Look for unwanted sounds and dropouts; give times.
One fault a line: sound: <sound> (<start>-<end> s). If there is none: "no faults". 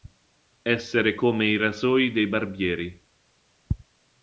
no faults